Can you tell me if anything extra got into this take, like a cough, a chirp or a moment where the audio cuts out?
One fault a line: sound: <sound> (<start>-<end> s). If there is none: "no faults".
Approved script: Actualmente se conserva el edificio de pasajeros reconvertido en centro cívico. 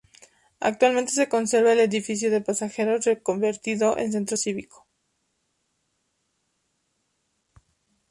no faults